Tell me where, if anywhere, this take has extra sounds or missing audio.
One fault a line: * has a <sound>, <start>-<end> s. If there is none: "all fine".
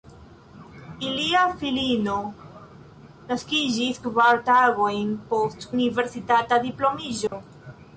* has a dropout, 7.3-7.3 s